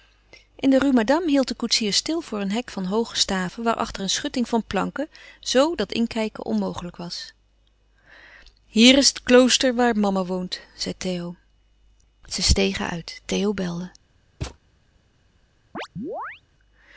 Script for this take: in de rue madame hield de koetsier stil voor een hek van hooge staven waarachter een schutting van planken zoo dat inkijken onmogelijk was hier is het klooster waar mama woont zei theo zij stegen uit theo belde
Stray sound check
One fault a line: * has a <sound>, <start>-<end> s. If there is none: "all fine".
* has a thud, 14.4-14.6 s
* has a chirp, 15.7-16.4 s